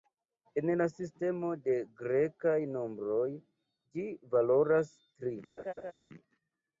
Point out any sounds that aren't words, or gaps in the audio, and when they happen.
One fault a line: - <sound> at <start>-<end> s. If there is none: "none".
- laugh at 5.6-5.9 s